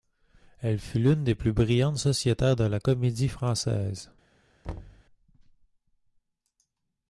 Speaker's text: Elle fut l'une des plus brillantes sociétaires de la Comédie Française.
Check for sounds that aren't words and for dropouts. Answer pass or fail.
fail